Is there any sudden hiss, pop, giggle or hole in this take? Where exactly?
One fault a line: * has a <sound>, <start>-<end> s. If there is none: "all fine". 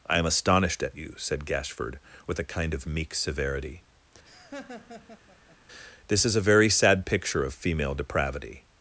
* has a laugh, 4.2-5.6 s